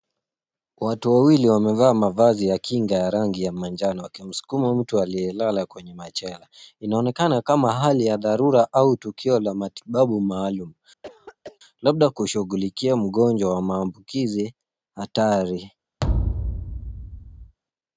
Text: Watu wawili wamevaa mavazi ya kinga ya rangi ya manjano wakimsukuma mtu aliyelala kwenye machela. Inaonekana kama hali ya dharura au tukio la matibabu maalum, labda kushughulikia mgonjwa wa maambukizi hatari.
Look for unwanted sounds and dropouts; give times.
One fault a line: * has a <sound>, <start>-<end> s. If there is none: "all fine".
* has a throat clearing, 11.0-11.6 s
* has a thud, 16.0-17.6 s